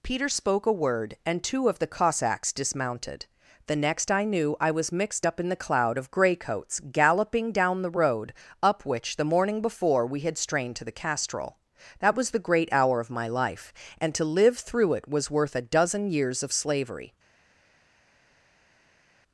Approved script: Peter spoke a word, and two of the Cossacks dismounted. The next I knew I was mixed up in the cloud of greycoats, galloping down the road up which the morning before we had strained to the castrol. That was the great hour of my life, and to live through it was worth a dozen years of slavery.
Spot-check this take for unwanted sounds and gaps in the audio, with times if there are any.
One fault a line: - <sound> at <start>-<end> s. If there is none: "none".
none